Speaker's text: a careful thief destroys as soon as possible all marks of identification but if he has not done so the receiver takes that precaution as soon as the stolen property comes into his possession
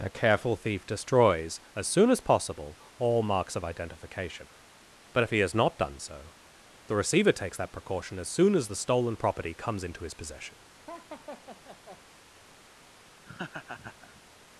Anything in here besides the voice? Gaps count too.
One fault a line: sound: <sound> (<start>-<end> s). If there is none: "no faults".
sound: laugh (10.9-12.0 s)
sound: laugh (13.2-14.2 s)